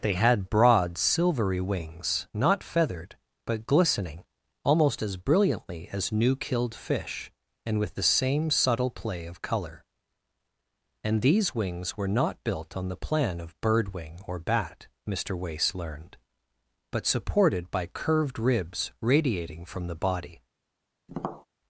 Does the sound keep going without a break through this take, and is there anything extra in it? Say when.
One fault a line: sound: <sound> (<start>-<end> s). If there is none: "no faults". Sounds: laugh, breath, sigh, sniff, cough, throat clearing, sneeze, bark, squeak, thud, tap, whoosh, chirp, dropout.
sound: tap (21.1-21.5 s)